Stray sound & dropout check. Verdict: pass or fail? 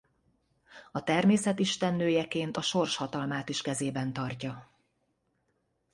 pass